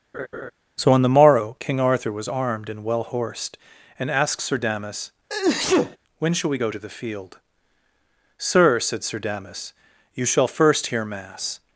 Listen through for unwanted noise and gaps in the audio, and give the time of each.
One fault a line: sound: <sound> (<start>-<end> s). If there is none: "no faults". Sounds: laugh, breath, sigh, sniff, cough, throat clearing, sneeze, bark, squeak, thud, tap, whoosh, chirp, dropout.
sound: laugh (0.1-0.5 s)
sound: sneeze (5.3-6.0 s)